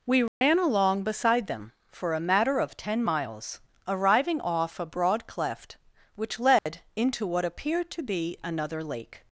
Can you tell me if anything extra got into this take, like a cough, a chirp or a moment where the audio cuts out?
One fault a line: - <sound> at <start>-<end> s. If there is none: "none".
- dropout at 0.3-0.4 s
- dropout at 6.6-6.7 s